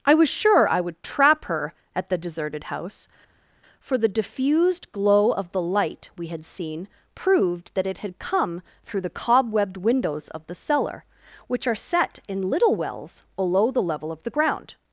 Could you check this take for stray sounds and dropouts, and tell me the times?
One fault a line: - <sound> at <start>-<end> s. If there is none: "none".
none